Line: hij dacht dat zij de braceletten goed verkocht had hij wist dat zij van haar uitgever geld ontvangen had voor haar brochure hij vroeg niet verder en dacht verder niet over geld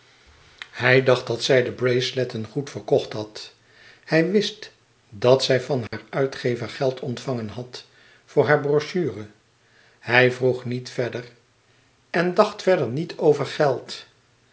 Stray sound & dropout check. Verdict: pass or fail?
fail